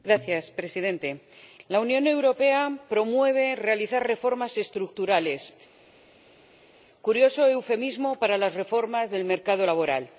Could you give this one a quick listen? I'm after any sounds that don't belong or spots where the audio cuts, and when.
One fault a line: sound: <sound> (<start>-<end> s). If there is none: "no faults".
no faults